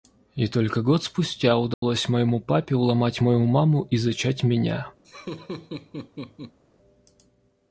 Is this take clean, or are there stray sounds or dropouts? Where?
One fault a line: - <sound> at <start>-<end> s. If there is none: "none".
- dropout at 1.7-1.8 s
- laugh at 5.0-6.6 s